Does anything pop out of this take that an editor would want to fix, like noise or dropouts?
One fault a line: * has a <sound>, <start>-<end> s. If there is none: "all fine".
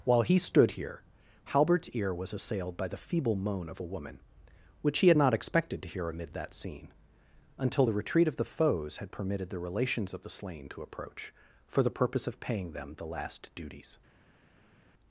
all fine